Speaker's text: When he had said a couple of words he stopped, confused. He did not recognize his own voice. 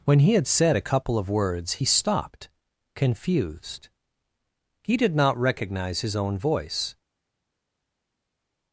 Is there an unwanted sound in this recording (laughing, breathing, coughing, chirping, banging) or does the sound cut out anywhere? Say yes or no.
no